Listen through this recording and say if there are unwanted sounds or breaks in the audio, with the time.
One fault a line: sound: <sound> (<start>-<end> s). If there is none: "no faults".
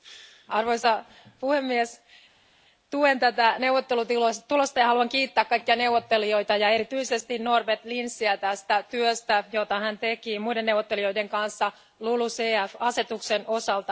no faults